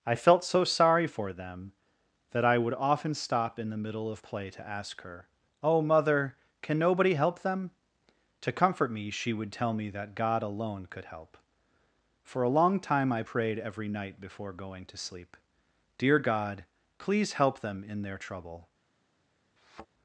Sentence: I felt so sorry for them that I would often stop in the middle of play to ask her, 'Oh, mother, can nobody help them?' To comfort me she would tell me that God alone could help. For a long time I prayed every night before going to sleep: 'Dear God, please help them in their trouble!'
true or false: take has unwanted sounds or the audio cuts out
true